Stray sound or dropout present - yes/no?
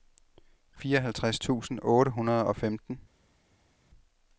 no